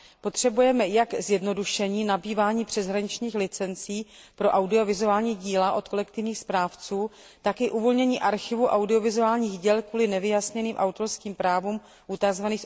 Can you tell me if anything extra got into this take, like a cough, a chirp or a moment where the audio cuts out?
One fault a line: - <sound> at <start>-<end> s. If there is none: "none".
none